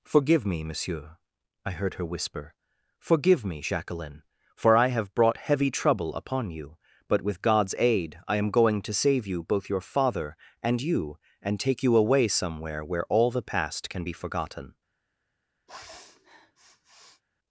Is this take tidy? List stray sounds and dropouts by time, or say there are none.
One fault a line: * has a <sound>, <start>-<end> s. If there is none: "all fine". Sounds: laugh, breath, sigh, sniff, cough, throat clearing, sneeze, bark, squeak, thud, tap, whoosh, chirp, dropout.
* has a sniff, 15.7-17.2 s